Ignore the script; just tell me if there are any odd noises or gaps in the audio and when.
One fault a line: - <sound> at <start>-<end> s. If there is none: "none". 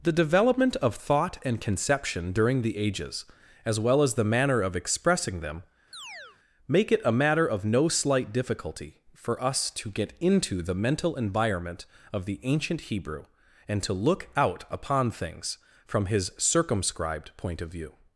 - chirp at 5.9-6.4 s